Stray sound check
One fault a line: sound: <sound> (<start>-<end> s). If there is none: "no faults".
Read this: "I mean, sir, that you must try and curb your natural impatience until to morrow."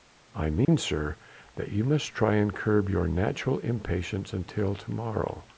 sound: dropout (0.6-0.7 s)